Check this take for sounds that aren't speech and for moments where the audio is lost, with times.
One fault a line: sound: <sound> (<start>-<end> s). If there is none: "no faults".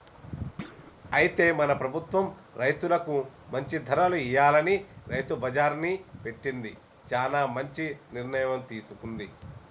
sound: thud (0.6-0.9 s)